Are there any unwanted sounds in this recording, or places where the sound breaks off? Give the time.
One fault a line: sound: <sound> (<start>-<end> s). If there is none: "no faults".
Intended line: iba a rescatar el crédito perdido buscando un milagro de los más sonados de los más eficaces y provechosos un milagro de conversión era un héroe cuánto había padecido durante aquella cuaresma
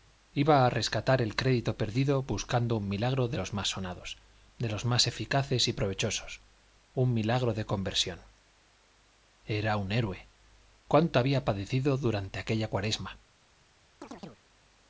sound: chirp (14.0-14.4 s)